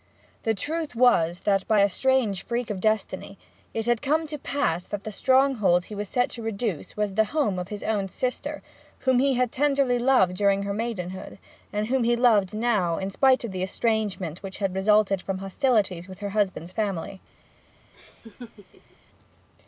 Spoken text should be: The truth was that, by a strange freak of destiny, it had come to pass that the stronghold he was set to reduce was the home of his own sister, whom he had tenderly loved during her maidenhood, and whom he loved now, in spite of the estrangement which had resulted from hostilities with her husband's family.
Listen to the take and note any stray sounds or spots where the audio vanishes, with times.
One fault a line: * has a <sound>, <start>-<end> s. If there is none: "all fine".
* has a laugh, 17.9-19.0 s